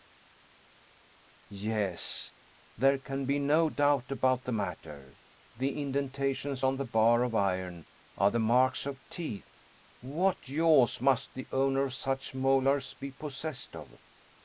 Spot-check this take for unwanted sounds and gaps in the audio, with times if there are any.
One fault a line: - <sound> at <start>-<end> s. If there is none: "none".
none